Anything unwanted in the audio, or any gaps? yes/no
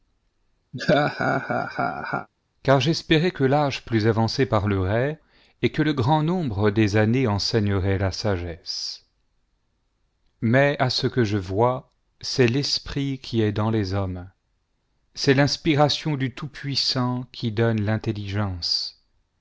yes